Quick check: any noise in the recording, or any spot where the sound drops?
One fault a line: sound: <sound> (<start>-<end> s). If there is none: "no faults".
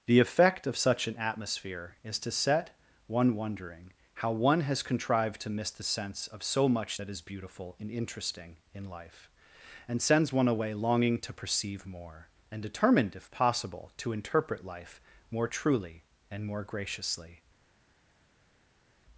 no faults